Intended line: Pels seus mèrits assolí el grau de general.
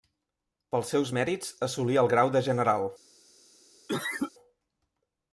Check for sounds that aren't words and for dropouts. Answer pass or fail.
fail